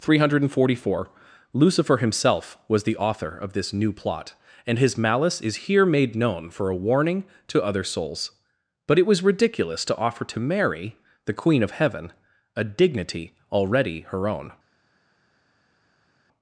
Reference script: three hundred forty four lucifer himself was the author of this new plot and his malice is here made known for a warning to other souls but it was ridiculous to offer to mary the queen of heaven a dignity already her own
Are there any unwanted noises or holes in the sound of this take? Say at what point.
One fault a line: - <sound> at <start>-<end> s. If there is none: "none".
none